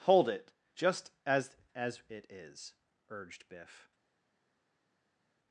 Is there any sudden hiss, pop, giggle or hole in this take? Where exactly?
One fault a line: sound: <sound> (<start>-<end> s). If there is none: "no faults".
no faults